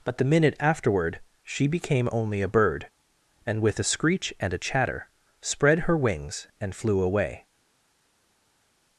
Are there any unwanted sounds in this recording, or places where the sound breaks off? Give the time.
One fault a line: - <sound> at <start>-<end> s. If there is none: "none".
none